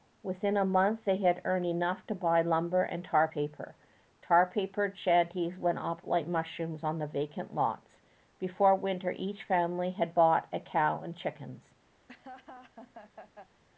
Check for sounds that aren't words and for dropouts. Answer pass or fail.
fail